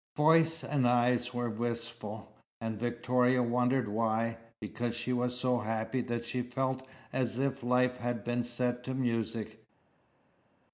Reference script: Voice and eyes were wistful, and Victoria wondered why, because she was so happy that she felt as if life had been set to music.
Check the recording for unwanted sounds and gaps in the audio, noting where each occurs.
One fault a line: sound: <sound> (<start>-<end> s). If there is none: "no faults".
no faults